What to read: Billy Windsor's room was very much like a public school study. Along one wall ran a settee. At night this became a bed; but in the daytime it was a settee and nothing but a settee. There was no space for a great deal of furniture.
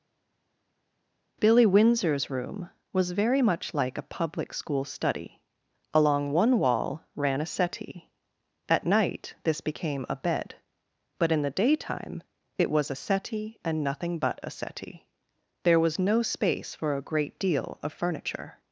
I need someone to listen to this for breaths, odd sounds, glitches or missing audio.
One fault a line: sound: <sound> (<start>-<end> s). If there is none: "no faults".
no faults